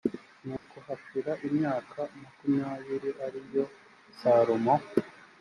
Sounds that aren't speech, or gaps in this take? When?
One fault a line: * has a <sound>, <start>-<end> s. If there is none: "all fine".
* has a dropout, 0.6-0.7 s